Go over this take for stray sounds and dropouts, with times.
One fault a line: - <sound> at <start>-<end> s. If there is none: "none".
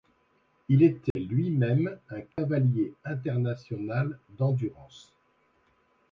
- dropout at 1.1-1.2 s
- dropout at 2.3-2.4 s